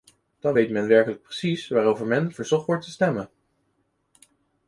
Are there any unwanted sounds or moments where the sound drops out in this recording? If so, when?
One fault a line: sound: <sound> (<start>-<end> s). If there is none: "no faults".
no faults